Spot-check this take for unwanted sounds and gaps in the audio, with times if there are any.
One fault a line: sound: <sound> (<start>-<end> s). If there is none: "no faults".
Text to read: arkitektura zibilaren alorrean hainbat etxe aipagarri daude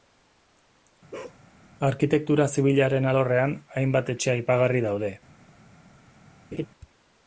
sound: bark (1.1-1.4 s)
sound: laugh (6.5-6.7 s)